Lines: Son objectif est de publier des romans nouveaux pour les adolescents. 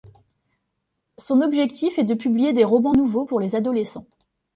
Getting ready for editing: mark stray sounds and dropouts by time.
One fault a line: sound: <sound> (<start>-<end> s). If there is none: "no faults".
no faults